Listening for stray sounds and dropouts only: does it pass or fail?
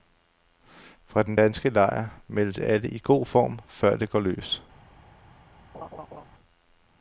fail